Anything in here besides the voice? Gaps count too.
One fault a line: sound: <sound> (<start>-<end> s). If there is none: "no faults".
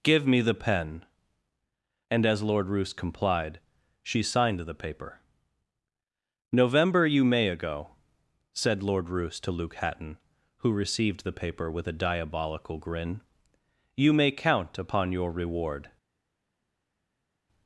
no faults